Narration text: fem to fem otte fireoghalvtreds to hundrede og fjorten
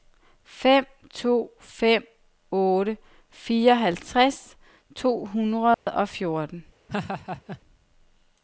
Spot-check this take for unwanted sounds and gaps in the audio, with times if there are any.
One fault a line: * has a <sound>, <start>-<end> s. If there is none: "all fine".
* has a dropout, 5.7-5.9 s
* has a laugh, 6.9-7.6 s